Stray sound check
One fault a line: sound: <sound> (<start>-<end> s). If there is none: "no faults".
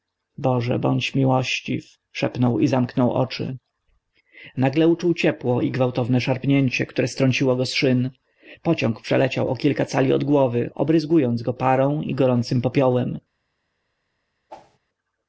sound: whoosh (14.5-14.8 s)